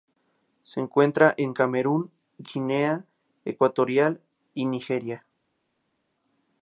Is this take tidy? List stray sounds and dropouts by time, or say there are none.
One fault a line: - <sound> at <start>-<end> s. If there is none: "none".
none